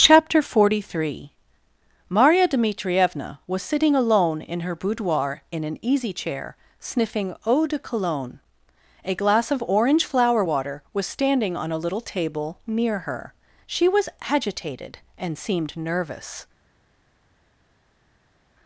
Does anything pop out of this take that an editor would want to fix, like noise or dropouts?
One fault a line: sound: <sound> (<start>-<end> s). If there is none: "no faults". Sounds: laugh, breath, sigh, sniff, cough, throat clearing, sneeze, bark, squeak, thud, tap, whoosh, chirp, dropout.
no faults